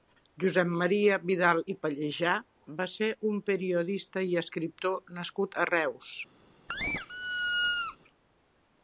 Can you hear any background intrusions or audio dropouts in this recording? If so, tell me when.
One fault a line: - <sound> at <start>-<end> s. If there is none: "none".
- squeak at 6.7-8.0 s